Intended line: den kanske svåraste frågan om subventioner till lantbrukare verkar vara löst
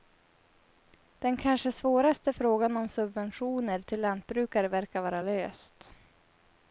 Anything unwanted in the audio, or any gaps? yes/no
no